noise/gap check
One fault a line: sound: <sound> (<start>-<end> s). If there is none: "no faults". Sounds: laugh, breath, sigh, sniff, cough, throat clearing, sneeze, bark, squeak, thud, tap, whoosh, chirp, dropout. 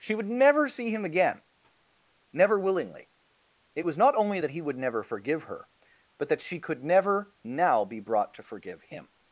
no faults